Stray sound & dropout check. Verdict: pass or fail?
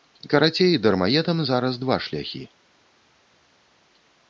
pass